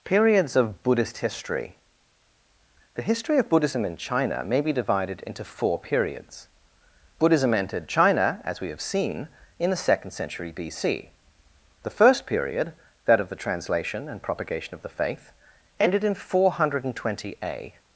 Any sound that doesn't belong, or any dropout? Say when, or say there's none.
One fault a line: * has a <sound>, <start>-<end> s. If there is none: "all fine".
all fine